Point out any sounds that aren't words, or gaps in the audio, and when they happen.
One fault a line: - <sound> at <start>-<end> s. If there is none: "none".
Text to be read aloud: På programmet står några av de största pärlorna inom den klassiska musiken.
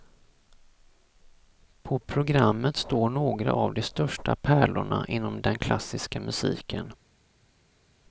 none